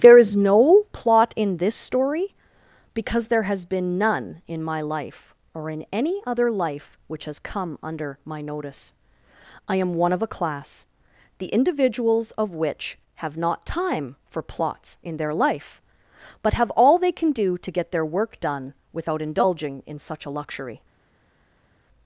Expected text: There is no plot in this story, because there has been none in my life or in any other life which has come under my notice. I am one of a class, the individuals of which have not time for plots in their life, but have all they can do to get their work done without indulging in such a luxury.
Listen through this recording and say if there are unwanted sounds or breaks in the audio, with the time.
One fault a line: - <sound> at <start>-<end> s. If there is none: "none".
none